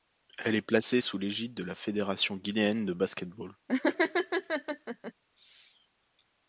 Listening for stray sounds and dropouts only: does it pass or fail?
fail